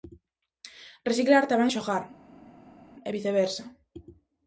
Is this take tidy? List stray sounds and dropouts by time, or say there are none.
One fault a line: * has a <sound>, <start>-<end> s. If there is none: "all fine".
all fine